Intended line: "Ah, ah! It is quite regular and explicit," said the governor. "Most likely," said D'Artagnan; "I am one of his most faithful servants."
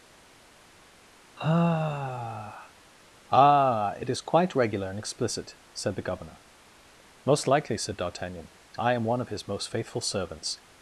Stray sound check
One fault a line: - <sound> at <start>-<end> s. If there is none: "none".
none